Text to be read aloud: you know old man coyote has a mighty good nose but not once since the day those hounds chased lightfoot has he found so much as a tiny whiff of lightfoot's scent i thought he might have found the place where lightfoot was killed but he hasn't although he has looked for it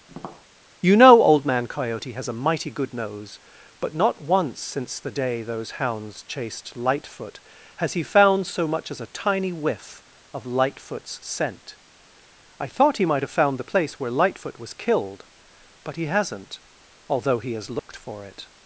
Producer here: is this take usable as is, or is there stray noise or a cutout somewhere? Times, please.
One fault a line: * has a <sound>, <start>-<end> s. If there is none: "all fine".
* has a tap, 0.1-0.5 s
* has a dropout, 17.8-17.9 s